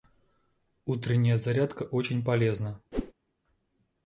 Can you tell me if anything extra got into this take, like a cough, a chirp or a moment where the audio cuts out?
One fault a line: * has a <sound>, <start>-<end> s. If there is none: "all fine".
* has a whoosh, 2.9-3.1 s